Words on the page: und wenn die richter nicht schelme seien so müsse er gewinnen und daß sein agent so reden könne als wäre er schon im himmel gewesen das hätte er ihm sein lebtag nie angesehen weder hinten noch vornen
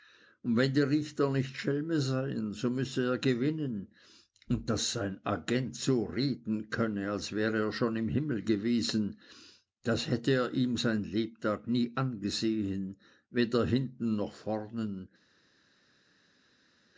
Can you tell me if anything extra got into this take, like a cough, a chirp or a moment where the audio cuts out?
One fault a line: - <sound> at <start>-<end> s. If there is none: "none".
none